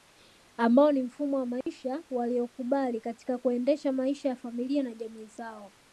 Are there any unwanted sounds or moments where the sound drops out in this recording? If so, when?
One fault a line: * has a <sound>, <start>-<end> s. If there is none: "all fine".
* has a dropout, 1.6-1.7 s